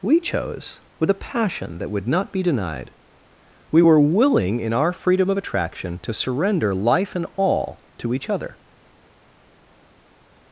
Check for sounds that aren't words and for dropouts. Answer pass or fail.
pass